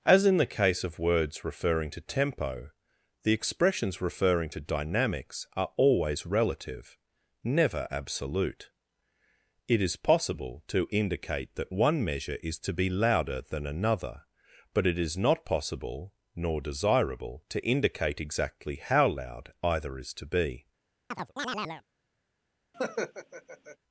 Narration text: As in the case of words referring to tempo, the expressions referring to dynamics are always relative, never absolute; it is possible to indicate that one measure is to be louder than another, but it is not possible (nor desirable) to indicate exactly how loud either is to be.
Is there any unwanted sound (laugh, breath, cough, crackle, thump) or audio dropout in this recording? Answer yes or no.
yes